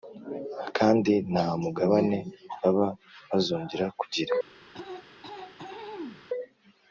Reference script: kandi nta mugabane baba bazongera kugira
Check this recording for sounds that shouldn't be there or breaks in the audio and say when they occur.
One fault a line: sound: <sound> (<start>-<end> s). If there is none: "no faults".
sound: throat clearing (4.7-6.2 s)